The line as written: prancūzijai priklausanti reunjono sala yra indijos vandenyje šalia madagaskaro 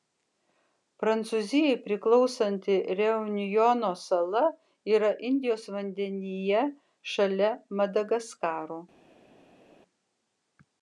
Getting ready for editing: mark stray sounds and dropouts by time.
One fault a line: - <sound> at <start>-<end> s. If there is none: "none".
none